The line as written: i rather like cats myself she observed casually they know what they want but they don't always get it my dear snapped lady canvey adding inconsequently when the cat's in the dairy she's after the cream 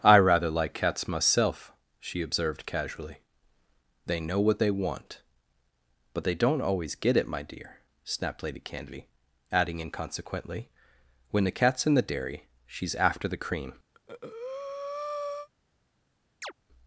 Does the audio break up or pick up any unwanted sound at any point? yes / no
yes